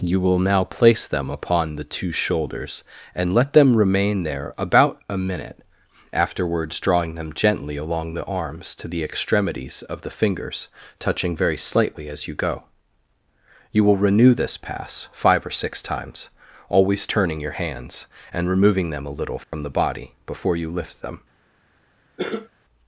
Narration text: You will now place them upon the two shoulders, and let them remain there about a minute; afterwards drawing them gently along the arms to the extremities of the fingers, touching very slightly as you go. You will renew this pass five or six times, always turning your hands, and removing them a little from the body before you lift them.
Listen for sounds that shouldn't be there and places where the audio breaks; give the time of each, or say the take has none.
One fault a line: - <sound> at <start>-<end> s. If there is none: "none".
- dropout at 19.4-19.5 s
- cough at 22.2-22.5 s